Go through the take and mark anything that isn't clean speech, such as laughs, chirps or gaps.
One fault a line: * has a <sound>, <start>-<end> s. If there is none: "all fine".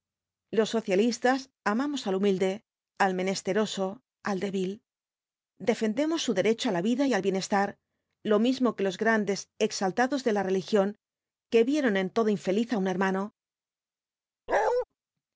* has a bark, 14.5-14.8 s